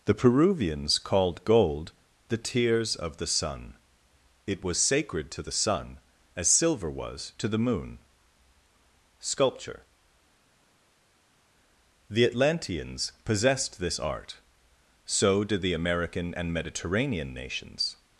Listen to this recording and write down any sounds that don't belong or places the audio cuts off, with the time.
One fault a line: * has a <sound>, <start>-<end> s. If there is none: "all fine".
all fine